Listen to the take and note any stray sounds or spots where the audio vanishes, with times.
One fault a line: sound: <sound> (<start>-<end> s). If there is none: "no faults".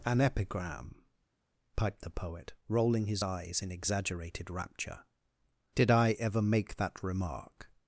no faults